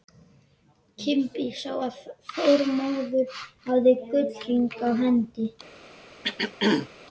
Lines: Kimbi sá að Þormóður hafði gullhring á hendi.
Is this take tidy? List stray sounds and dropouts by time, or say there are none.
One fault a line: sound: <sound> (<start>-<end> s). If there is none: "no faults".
sound: throat clearing (6.2-6.9 s)